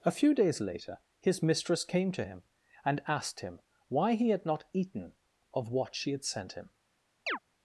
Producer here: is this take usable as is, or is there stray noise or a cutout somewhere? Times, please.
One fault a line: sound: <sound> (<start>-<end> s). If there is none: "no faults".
sound: chirp (7.3-7.4 s)